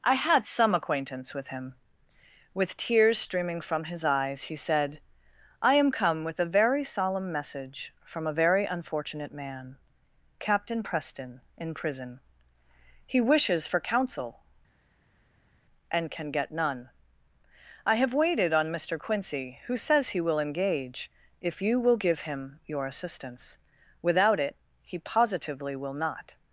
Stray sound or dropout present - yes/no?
no